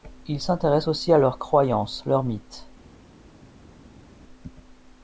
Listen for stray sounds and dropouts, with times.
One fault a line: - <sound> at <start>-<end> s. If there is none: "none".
none